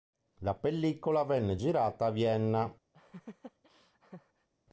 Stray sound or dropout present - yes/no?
yes